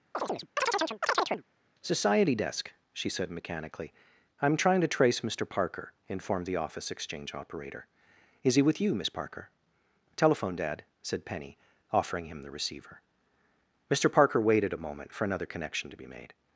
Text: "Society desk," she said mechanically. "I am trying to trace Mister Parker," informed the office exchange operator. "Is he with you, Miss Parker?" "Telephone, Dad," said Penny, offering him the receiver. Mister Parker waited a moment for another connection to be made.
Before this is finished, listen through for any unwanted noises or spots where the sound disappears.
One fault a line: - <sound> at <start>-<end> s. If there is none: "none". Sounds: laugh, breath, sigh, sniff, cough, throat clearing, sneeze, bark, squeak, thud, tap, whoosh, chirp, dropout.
- chirp at 0.1-1.4 s